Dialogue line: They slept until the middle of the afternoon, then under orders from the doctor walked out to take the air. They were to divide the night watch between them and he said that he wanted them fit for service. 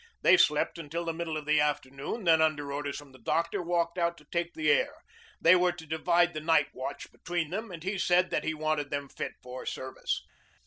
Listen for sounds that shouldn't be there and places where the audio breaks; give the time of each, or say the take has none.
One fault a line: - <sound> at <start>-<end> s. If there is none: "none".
none